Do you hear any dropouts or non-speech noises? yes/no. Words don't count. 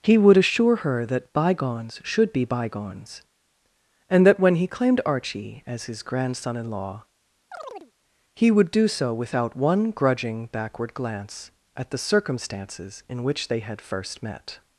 yes